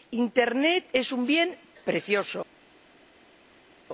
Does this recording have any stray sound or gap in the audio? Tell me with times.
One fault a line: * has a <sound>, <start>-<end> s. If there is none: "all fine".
all fine